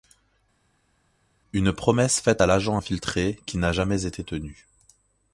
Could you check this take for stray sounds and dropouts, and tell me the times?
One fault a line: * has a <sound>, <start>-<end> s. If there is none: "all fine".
all fine